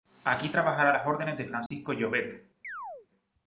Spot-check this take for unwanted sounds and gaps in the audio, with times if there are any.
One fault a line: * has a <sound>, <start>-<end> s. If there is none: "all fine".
* has a dropout, 1.7-1.7 s
* has a chirp, 2.6-3.1 s